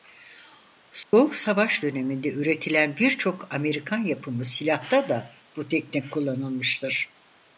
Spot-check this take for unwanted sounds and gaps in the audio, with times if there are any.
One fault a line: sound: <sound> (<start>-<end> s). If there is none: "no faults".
sound: dropout (1.0-1.1 s)